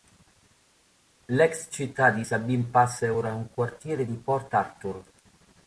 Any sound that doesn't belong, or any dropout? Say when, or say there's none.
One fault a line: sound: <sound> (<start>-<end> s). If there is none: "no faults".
no faults